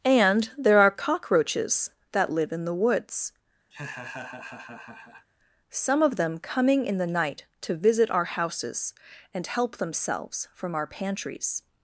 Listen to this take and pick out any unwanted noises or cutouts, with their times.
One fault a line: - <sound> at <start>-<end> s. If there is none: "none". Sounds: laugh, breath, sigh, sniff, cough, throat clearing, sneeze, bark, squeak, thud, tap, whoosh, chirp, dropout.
- laugh at 3.7-5.3 s